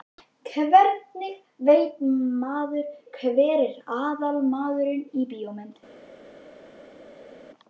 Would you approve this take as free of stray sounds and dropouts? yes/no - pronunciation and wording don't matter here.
yes